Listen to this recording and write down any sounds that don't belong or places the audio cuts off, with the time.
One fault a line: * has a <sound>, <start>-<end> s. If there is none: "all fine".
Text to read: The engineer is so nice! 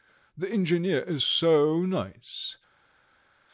all fine